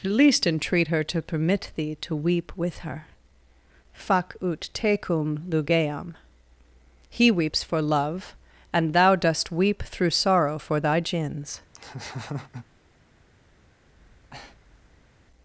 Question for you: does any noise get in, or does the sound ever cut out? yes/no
yes